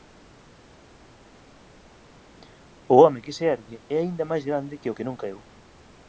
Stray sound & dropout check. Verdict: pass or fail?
pass